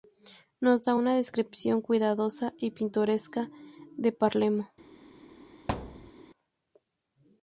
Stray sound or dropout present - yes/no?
yes